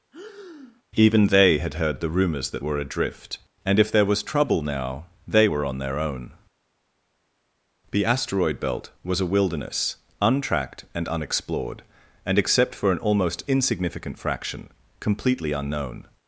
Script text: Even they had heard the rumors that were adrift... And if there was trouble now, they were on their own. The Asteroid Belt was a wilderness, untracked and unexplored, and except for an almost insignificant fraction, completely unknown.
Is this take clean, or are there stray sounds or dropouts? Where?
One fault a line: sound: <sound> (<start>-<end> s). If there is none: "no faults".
sound: breath (0.1-0.8 s)